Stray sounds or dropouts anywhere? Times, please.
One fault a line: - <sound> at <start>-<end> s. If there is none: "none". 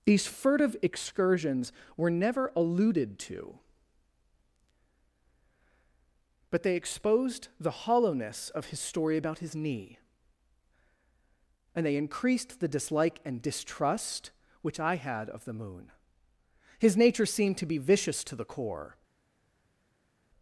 none